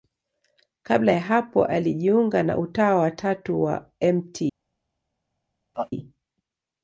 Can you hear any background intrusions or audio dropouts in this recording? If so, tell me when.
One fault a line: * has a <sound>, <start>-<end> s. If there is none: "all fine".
* has a laugh, 5.7-5.9 s